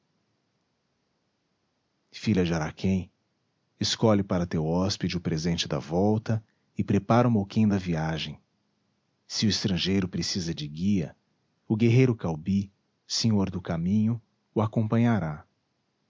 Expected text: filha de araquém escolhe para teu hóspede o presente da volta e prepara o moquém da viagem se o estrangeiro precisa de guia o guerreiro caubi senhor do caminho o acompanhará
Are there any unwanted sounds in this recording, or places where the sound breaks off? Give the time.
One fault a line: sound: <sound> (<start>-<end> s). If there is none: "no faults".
no faults